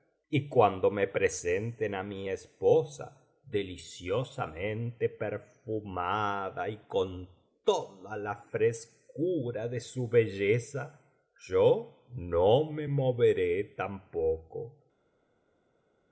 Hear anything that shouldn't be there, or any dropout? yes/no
no